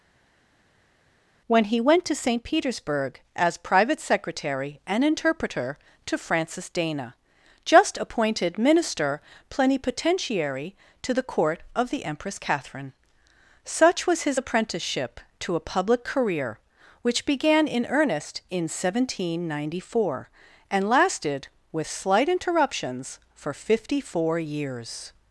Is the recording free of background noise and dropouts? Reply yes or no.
yes